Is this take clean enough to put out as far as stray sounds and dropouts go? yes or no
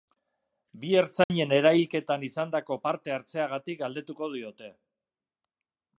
no